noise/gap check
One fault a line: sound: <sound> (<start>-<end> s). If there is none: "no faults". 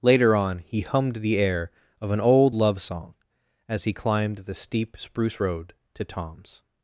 no faults